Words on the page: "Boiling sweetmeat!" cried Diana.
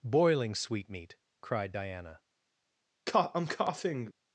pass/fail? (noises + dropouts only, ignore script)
fail